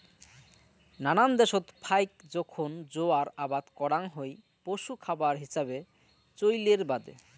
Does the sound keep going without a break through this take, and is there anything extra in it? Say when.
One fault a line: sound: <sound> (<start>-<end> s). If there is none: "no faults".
no faults